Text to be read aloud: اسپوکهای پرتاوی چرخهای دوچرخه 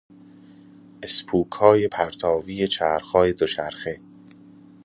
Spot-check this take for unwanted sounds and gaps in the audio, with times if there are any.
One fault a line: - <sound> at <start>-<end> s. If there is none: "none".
none